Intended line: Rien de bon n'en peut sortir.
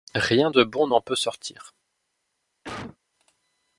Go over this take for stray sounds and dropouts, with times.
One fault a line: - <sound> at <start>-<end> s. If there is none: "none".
- cough at 2.6-3.0 s